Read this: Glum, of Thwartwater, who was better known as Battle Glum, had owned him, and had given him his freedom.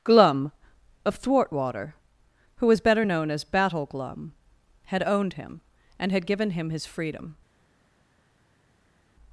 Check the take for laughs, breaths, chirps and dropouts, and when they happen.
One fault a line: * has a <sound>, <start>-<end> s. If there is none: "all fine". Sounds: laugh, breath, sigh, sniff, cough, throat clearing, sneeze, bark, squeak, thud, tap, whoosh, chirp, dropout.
all fine